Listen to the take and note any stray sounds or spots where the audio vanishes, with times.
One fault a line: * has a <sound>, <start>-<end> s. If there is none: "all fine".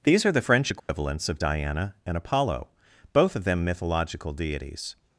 * has a dropout, 0.8-0.9 s